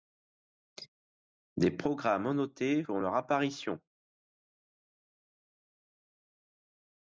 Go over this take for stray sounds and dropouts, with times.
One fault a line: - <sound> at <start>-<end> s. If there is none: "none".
none